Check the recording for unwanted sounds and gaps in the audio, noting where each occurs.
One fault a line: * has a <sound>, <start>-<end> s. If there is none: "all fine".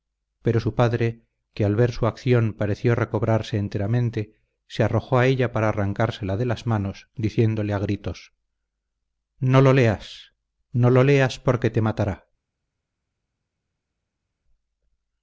all fine